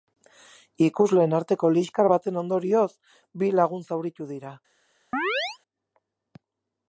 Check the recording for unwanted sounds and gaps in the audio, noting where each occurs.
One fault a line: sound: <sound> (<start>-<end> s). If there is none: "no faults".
sound: chirp (5.1-5.6 s)